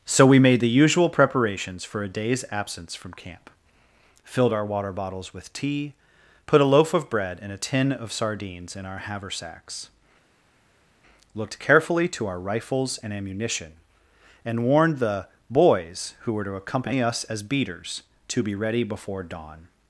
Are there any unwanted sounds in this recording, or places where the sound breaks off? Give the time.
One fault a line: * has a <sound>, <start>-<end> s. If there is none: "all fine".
all fine